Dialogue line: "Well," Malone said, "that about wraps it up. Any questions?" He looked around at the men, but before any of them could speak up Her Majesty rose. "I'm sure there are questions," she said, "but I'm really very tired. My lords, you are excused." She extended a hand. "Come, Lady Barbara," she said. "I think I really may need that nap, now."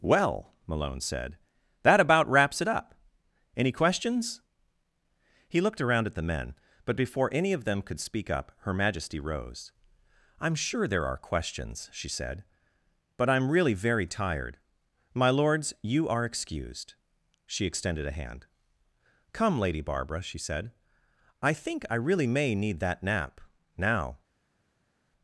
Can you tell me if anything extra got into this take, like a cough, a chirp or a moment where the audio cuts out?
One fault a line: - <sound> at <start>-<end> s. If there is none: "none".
none